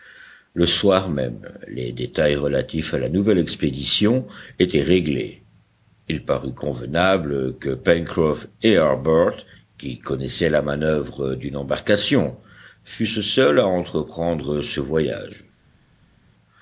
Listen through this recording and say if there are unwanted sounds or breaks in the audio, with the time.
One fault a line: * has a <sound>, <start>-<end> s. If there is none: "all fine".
all fine